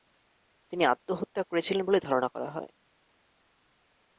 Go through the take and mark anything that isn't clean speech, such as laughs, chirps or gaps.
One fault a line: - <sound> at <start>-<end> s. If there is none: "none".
none